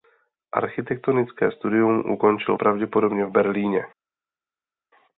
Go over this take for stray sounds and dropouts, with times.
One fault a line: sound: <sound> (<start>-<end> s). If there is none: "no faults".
no faults